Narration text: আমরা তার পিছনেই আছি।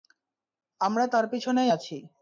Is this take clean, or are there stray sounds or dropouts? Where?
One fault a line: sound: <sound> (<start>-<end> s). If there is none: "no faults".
no faults